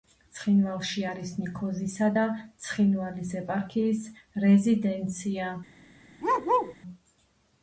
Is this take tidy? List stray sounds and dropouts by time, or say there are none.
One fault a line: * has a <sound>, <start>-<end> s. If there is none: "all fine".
* has a bark, 6.2-6.8 s